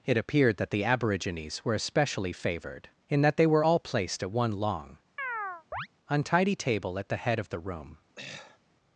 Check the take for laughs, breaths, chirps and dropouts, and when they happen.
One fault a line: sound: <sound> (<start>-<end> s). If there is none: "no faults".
sound: chirp (5.2-5.9 s)
sound: throat clearing (8.2-8.6 s)